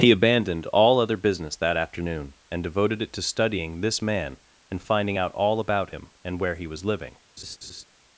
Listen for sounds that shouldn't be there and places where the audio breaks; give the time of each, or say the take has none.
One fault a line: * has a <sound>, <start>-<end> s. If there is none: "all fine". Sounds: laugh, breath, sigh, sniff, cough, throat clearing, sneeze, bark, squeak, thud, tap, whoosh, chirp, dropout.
* has a laugh, 7.4-7.8 s